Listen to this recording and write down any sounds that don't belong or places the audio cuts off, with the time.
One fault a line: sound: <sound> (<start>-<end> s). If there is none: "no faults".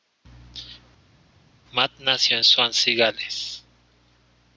no faults